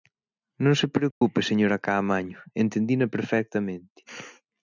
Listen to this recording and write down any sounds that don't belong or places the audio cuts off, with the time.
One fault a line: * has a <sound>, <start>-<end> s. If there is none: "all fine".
* has a dropout, 1.1-1.2 s